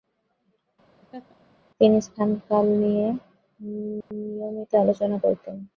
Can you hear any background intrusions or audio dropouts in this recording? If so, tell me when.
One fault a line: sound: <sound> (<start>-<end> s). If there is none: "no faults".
sound: laugh (1.0-1.4 s)
sound: dropout (4.0-4.1 s)